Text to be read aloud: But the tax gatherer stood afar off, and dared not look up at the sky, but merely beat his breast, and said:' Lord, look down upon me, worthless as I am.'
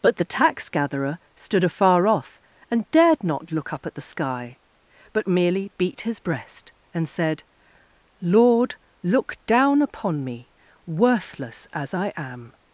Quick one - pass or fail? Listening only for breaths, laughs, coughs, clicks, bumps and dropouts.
pass